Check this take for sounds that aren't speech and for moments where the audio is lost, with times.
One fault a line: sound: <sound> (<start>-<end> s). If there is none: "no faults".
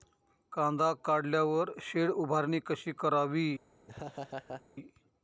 sound: laugh (3.9-4.6 s)